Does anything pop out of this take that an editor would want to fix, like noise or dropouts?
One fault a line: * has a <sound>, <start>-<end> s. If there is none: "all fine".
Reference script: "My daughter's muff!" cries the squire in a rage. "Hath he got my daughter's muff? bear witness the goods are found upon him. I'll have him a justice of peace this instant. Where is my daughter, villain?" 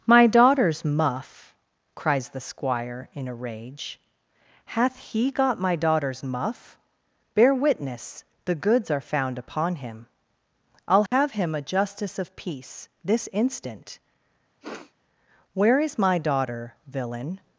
* has a dropout, 11.1-11.1 s
* has a sniff, 14.6-14.9 s